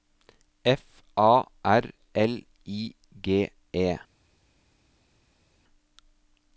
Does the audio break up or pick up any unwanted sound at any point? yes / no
no